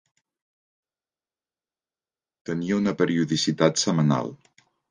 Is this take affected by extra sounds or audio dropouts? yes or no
no